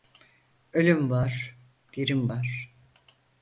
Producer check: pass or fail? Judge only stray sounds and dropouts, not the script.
pass